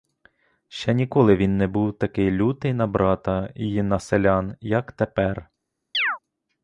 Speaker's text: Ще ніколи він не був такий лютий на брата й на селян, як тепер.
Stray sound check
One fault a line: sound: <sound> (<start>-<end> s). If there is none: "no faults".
sound: chirp (5.9-6.2 s)